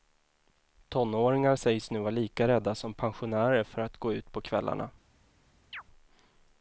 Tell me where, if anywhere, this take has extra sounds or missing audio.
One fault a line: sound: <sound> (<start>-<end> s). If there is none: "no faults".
sound: chirp (5.7-5.8 s)